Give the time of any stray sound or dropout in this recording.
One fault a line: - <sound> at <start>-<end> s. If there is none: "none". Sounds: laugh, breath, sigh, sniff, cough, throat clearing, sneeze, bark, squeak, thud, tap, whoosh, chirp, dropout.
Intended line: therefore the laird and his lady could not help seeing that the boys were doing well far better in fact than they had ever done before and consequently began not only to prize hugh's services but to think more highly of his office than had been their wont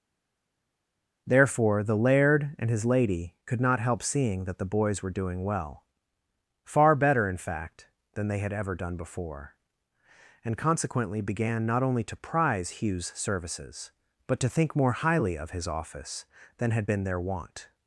none